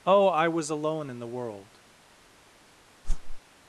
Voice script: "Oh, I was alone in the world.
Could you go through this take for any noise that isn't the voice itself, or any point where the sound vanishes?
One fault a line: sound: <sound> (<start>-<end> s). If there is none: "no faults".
sound: whoosh (3.0-3.4 s)